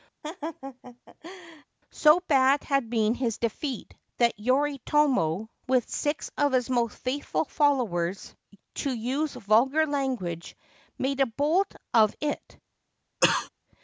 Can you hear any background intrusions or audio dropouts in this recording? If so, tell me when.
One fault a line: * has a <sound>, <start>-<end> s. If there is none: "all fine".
* has a laugh, 0.2-1.6 s
* has a cough, 13.2-13.5 s